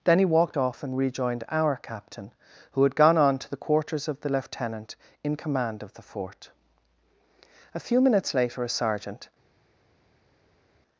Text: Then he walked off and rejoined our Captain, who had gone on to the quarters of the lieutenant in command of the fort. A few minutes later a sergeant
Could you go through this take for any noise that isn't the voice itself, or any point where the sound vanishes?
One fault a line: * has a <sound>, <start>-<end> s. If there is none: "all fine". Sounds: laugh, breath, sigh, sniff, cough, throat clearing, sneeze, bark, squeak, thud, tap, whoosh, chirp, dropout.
all fine